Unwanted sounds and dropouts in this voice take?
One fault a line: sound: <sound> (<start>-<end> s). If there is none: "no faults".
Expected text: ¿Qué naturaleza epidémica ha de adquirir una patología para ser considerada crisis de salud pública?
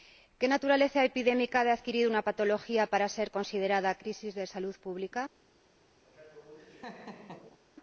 sound: laugh (6.0-7.6 s)